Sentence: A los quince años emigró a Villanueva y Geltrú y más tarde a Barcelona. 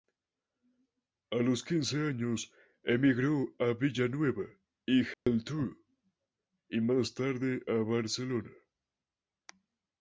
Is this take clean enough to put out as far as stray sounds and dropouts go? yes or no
no